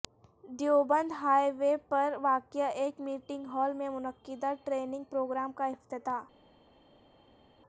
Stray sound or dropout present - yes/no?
no